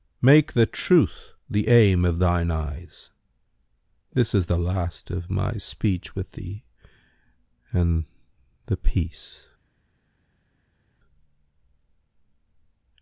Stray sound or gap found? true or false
false